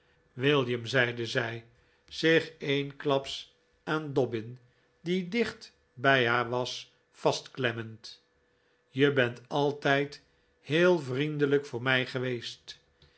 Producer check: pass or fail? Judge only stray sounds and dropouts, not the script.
pass